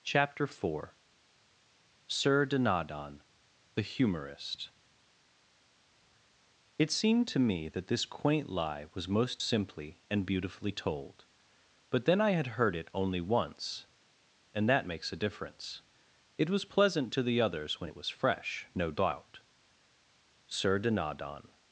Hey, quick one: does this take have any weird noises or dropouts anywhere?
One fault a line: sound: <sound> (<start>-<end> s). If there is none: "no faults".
no faults